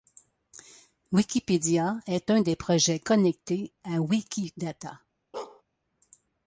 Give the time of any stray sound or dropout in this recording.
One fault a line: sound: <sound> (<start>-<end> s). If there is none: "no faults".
sound: bark (5.3-5.6 s)